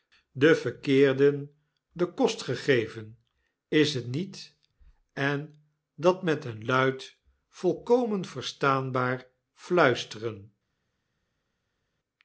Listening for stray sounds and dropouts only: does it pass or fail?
pass